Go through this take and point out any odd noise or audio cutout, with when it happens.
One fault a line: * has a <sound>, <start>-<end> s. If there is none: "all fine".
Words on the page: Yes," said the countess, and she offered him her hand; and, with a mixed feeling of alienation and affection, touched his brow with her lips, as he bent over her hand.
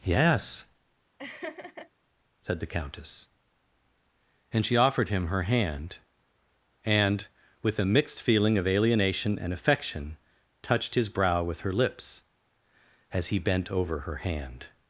* has a laugh, 1.2-1.9 s